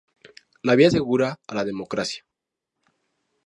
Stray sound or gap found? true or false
false